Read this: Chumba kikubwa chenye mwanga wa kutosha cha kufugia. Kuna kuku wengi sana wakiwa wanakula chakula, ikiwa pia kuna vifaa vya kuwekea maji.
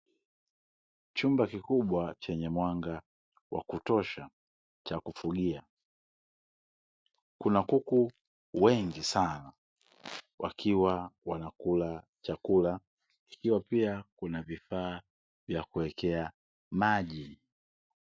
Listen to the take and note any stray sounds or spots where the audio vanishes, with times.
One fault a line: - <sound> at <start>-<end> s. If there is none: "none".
none